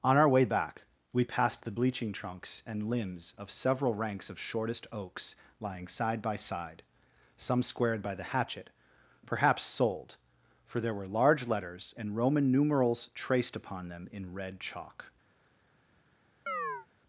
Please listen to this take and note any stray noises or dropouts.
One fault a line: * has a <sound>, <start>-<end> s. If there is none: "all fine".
* has a chirp, 16.5-16.9 s